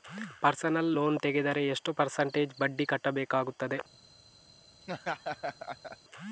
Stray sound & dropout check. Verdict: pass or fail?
fail